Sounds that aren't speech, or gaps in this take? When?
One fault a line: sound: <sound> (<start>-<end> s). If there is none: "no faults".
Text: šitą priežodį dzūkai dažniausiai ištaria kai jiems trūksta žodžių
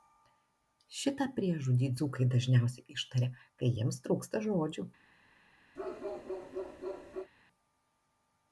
sound: bark (5.7-7.3 s)